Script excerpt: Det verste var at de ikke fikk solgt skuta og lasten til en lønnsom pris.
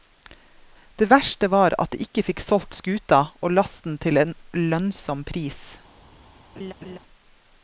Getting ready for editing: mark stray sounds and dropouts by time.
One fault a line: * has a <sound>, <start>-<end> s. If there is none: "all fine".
* has a laugh, 6.6-7.0 s